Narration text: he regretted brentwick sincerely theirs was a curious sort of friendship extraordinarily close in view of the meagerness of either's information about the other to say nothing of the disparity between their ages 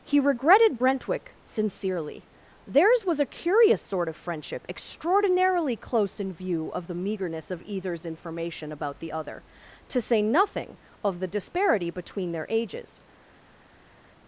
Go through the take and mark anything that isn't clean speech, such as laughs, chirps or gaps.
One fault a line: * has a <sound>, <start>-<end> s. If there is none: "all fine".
all fine